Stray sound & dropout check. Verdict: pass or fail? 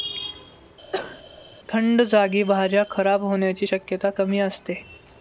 fail